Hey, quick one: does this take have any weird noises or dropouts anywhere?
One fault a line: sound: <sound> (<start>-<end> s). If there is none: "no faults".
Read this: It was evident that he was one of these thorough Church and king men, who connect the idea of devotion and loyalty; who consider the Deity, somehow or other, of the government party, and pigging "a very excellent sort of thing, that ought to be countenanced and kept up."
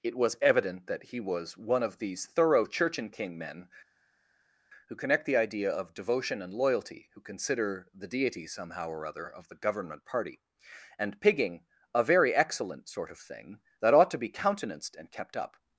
no faults